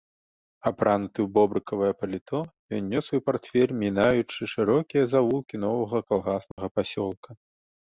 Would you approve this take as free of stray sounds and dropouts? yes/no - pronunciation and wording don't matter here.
no